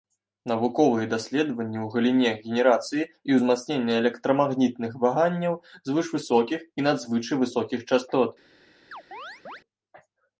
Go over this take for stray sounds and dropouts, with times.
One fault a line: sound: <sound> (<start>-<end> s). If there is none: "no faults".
sound: chirp (8.9-9.6 s)